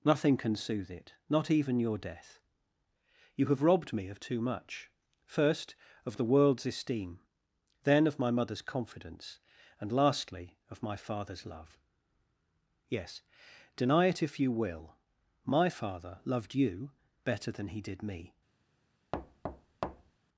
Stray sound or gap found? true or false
true